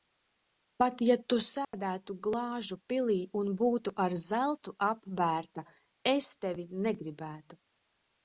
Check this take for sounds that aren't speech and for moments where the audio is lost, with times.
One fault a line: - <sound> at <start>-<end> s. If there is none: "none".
- dropout at 1.6-1.7 s